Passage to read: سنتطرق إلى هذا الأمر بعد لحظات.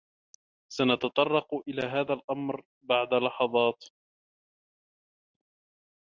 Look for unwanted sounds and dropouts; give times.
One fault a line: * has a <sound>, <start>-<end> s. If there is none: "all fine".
all fine